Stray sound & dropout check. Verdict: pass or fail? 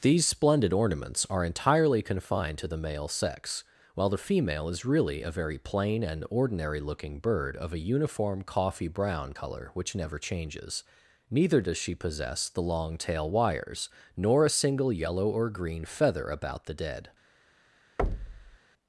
fail